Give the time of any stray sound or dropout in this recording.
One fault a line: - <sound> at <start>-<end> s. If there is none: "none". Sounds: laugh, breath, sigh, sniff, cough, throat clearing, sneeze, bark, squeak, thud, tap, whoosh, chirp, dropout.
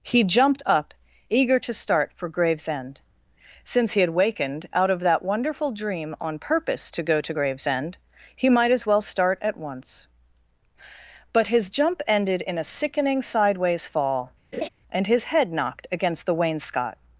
- laugh at 14.5-14.7 s